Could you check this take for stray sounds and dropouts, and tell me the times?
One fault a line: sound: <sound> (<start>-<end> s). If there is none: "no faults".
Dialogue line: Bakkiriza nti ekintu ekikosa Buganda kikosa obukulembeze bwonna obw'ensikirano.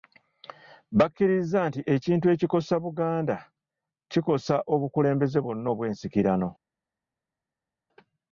no faults